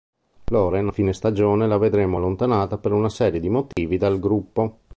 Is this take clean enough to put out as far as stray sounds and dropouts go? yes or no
no